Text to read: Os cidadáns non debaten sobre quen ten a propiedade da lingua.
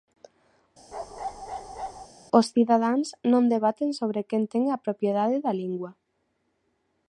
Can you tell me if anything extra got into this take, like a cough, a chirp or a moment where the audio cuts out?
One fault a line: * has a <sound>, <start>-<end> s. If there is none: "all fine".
* has a bark, 0.9-2.1 s